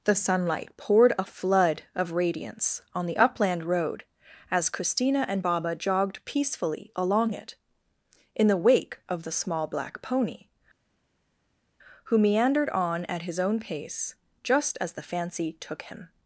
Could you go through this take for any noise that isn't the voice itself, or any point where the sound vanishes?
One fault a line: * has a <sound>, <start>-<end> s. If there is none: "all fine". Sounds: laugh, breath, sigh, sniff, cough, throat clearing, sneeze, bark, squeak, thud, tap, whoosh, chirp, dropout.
all fine